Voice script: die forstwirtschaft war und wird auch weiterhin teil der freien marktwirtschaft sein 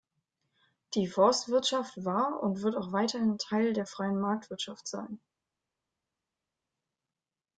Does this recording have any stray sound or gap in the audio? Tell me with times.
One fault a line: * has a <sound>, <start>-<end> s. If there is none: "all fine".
all fine